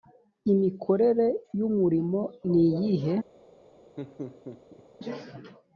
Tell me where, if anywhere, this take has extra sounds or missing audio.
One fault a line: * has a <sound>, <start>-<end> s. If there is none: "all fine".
* has a laugh, 4.0-4.8 s